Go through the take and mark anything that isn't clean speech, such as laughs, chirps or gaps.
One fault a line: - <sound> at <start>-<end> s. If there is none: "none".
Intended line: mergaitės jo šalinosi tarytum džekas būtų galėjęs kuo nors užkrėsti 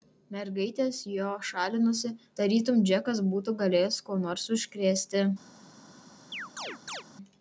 - chirp at 6.3-7.0 s